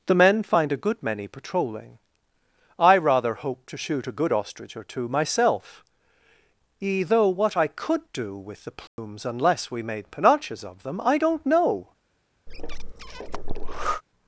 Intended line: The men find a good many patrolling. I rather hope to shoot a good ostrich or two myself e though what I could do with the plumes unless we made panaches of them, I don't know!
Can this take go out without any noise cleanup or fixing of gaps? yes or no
no